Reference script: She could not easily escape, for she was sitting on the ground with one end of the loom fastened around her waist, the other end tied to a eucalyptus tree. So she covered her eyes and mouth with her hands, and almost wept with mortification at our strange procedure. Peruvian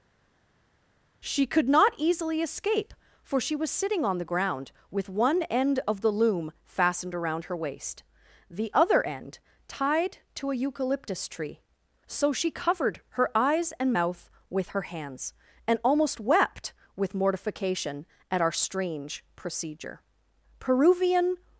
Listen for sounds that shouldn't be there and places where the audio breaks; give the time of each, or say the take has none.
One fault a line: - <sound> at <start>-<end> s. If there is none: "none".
none